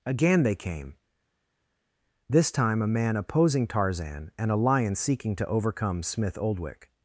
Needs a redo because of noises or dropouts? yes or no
no